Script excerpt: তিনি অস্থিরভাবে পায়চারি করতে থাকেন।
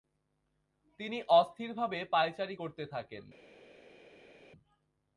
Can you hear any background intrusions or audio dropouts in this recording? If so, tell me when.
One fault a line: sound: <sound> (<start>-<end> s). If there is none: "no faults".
no faults